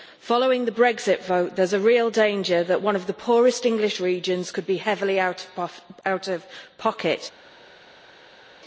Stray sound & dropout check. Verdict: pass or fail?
pass